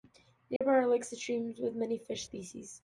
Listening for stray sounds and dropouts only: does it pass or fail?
fail